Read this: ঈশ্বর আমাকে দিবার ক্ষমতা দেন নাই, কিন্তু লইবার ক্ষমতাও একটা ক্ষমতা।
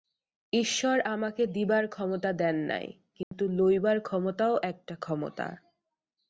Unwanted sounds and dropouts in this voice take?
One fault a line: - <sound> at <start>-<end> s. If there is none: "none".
- dropout at 3.2-3.3 s